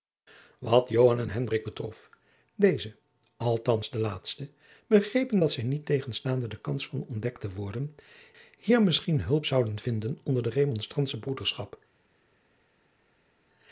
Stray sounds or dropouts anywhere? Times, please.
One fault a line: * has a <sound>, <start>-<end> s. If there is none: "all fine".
all fine